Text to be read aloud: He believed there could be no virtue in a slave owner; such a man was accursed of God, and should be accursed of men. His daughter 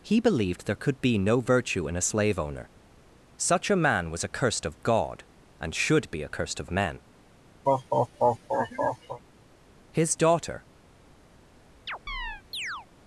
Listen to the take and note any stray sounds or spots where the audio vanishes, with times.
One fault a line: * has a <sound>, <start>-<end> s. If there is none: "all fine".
* has a laugh, 7.6-9.2 s
* has a chirp, 11.9-12.9 s